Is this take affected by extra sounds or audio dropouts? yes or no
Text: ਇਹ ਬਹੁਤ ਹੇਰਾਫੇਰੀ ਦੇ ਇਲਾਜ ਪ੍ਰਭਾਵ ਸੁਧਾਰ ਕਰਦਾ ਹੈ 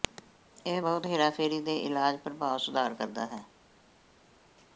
no